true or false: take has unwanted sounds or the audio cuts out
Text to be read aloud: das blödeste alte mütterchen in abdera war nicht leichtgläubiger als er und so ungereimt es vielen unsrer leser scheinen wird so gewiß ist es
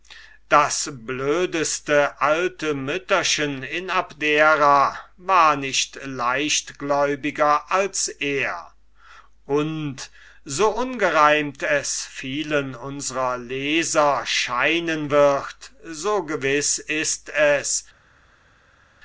false